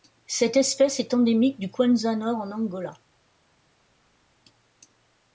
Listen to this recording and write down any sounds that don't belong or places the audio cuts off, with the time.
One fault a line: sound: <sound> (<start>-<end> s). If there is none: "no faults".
no faults